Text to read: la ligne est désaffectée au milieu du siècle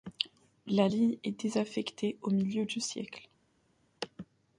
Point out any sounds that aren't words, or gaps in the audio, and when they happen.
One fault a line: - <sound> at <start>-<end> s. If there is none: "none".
none